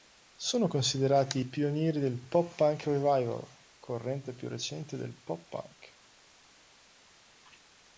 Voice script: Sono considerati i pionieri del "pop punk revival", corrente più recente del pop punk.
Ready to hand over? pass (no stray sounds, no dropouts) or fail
pass